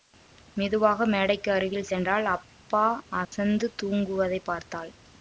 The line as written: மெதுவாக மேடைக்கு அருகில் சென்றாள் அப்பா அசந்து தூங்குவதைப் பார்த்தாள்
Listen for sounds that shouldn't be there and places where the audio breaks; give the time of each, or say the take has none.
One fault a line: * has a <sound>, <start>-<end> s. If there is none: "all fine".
* has a dropout, 3.2-3.3 s